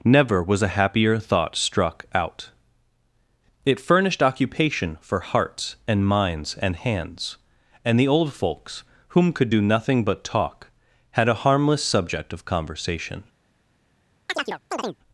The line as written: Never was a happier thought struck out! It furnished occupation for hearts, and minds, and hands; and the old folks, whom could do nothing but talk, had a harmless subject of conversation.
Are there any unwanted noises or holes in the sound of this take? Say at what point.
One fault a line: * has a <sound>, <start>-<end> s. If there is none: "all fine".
* has a chirp, 14.3-15.0 s